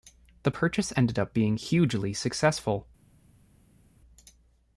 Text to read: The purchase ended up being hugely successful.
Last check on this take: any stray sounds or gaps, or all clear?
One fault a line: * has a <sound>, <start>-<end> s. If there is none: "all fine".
all fine